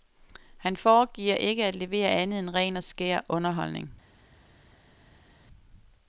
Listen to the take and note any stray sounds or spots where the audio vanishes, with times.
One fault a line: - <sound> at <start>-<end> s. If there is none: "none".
none